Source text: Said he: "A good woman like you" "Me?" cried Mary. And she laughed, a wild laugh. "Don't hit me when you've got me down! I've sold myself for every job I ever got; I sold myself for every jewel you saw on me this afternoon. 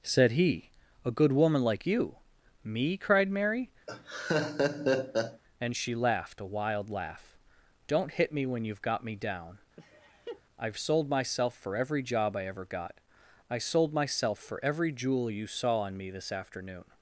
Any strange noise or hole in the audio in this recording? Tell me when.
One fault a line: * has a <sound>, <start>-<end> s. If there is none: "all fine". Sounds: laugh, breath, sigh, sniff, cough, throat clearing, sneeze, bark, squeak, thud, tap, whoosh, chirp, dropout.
* has a laugh, 3.9-5.4 s
* has a laugh, 9.8-10.4 s